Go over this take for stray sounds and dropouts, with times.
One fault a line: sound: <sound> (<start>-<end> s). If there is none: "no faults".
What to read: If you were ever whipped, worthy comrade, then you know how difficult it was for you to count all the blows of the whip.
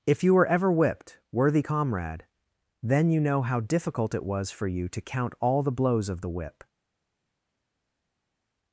no faults